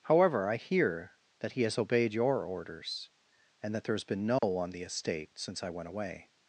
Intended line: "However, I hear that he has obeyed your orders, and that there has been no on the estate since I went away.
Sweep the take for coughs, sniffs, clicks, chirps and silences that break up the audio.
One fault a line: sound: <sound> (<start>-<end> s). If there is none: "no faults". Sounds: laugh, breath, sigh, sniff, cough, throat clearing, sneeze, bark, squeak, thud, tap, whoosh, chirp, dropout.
sound: dropout (4.4-4.4 s)